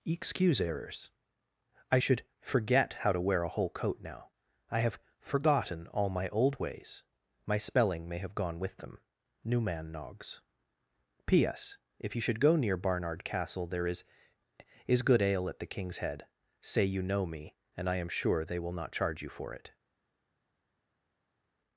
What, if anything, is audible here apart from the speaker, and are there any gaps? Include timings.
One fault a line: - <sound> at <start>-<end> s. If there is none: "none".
none